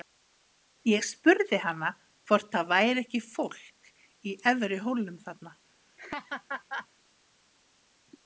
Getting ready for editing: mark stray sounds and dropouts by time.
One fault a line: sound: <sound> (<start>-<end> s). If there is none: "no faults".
sound: laugh (6.0-6.9 s)